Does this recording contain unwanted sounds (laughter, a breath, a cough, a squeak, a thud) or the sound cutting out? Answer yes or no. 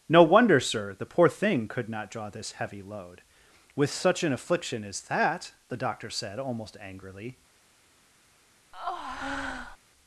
yes